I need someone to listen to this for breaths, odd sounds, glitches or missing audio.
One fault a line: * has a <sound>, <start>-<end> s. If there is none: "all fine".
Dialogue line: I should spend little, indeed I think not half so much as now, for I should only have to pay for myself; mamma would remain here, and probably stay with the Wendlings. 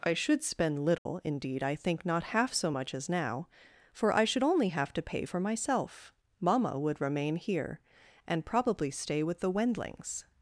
* has a dropout, 1.0-1.1 s